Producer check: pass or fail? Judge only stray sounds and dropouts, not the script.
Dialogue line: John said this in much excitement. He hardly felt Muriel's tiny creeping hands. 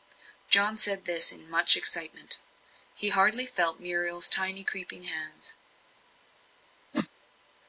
fail